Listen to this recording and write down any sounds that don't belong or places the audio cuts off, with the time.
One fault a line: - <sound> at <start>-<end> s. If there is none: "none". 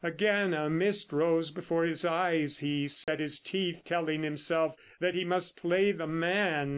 - dropout at 3.0-3.1 s